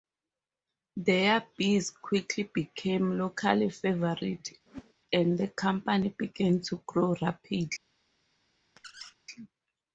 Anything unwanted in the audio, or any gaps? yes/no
yes